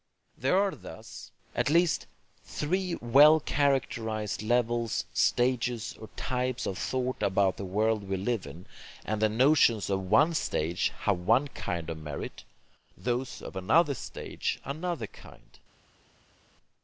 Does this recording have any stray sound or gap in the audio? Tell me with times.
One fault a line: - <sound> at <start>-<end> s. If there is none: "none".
none